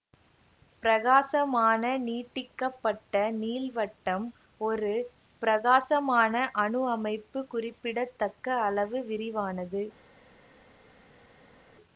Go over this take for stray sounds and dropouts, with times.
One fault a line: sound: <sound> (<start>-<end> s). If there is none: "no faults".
no faults